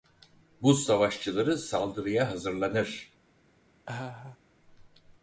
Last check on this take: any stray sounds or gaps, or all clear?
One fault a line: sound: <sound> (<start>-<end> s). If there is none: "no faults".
sound: laugh (3.9-4.4 s)